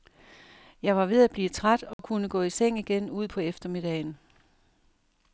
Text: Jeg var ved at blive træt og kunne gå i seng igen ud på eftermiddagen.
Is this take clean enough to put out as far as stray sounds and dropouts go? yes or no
no